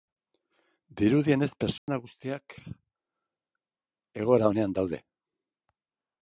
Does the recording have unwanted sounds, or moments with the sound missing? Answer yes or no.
yes